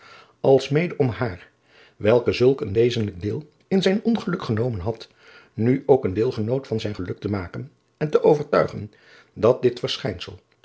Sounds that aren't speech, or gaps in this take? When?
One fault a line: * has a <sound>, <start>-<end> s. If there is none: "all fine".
all fine